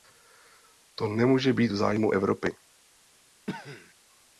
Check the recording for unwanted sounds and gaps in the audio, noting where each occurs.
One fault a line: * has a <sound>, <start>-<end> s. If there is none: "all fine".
* has a cough, 3.5-3.9 s